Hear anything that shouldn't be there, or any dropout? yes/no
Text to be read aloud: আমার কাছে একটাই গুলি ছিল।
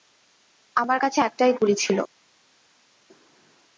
no